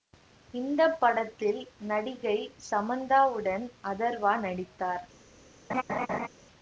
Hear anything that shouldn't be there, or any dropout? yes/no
yes